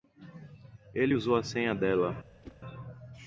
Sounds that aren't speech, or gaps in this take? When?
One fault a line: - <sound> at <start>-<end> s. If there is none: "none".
- whoosh at 2.4-2.6 s